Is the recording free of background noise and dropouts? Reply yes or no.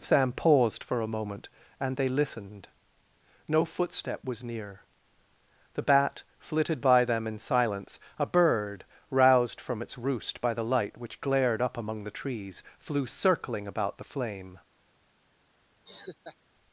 no